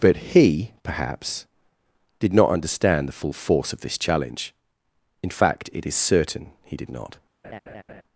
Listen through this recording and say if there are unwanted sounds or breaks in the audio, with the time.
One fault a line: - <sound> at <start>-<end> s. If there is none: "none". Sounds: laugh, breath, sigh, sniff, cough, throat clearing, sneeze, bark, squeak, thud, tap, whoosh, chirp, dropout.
- laugh at 7.4-8.0 s